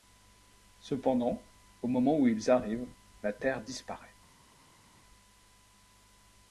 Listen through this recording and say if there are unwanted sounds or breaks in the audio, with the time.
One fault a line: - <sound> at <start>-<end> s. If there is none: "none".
none